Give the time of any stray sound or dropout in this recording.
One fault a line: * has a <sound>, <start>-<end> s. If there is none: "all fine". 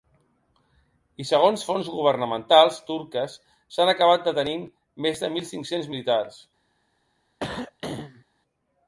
* has a throat clearing, 7.4-8.2 s